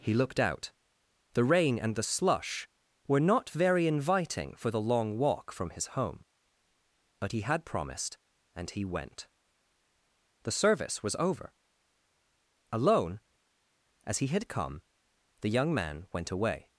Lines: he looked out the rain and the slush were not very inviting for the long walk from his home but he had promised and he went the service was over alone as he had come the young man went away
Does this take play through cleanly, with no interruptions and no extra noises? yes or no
yes